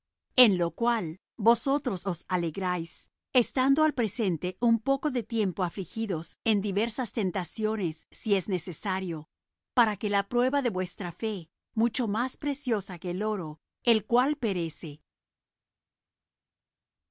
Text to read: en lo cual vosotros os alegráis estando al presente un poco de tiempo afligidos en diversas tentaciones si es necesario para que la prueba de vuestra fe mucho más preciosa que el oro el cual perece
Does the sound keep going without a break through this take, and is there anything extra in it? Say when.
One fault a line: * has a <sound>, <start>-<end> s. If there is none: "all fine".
all fine